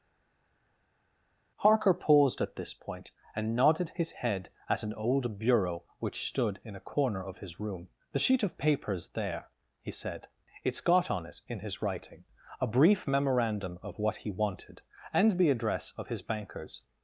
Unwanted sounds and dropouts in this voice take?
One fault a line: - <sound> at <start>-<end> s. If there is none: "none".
none